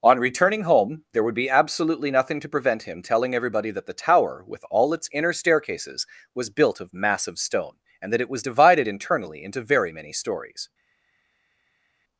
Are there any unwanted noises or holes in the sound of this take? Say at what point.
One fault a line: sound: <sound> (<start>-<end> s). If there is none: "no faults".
no faults